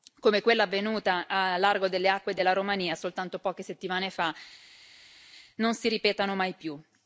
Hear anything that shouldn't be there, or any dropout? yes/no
no